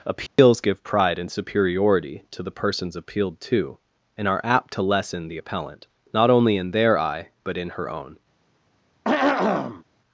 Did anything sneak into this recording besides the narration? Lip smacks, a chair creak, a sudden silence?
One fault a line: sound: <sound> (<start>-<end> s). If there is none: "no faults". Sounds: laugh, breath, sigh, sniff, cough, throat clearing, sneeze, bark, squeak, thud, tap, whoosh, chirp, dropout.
sound: dropout (0.3-0.4 s)
sound: throat clearing (9.0-9.8 s)